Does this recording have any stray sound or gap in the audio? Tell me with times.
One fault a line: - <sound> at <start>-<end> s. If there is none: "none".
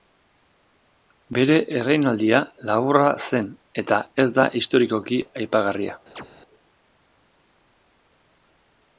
- chirp at 6.2-6.3 s